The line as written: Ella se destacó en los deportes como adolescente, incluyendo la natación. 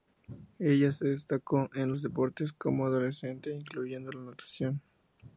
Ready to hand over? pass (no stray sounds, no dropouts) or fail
pass